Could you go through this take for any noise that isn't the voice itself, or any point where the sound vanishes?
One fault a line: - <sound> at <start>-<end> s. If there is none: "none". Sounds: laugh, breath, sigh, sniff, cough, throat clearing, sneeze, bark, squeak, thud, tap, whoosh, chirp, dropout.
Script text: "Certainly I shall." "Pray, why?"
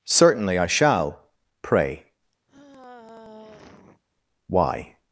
- sigh at 2.5-4.0 s